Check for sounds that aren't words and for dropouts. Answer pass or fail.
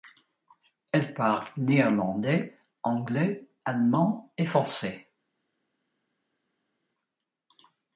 pass